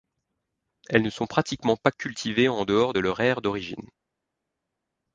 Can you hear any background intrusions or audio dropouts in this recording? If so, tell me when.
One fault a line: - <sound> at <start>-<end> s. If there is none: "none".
none